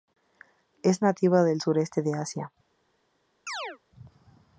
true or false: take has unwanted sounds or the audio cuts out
true